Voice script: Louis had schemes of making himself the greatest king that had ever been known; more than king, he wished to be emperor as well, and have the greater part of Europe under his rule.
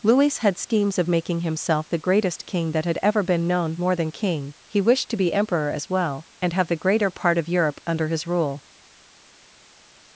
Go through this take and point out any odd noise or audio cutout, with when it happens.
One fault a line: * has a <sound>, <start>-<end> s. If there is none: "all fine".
all fine